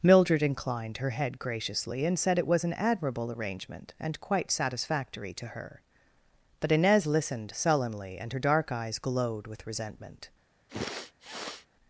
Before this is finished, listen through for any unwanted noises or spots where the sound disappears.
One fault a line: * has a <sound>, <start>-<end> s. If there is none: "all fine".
* has a sniff, 10.7-11.7 s